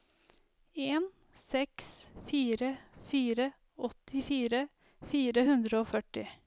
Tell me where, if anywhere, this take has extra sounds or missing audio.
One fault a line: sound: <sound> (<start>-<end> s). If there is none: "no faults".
no faults